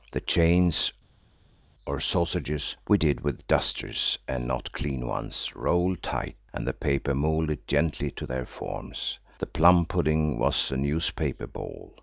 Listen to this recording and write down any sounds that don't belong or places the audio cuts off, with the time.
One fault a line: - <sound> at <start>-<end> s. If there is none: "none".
none